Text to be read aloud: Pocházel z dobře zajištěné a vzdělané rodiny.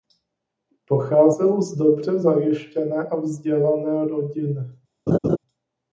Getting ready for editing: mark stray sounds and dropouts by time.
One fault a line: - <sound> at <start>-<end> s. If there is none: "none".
- laugh at 5.1-5.4 s